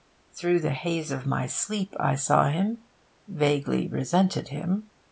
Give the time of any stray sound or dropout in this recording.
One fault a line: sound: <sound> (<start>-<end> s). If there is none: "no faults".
no faults